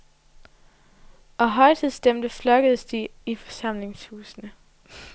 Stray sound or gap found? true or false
false